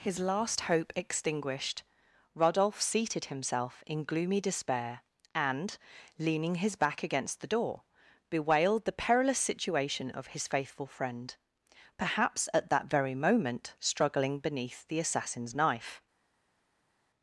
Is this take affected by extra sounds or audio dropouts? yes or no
no